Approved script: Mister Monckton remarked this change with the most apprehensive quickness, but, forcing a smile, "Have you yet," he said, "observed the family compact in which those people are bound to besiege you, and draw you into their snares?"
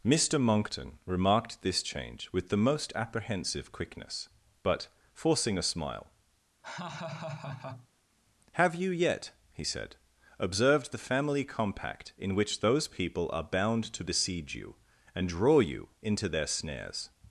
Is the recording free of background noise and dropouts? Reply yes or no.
no